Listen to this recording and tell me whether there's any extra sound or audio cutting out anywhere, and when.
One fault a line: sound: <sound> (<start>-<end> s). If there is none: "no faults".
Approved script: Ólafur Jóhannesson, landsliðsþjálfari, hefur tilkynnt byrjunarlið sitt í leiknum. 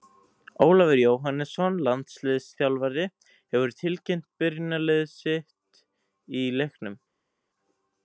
no faults